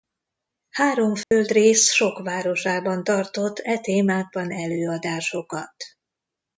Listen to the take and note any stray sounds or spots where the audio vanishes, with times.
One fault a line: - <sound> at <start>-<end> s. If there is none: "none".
- dropout at 1.2-1.3 s